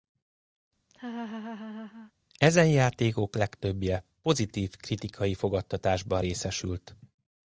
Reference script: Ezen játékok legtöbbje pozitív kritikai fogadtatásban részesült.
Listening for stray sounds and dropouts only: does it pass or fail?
fail